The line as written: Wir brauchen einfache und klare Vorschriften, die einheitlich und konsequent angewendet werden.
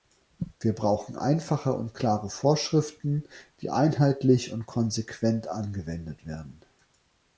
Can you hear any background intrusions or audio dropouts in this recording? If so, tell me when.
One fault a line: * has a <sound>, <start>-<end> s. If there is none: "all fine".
all fine